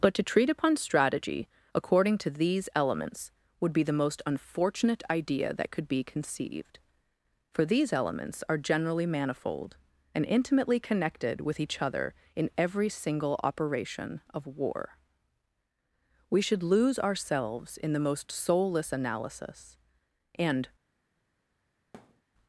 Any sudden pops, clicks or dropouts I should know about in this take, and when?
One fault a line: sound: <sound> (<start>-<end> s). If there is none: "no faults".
sound: thud (21.9-22.2 s)